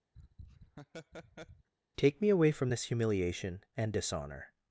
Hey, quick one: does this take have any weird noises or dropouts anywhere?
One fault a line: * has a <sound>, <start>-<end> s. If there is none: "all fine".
* has a laugh, 0.1-1.7 s